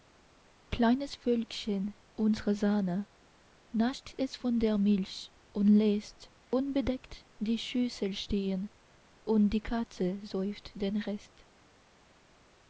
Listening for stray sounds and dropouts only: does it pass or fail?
pass